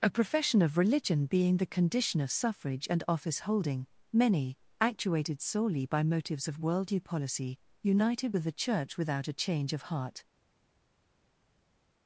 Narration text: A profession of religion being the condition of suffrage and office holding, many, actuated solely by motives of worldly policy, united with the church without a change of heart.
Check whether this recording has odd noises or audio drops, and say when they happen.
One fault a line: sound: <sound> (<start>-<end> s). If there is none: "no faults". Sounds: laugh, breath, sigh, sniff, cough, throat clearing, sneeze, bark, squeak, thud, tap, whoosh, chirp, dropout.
no faults